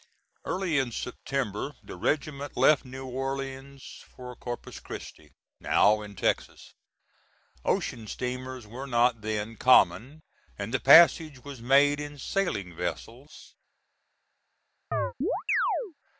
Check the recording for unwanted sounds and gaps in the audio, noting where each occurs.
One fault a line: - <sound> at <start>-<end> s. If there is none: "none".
- chirp at 14.9-15.9 s